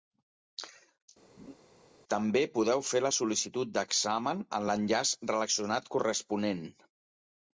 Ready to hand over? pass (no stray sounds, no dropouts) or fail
fail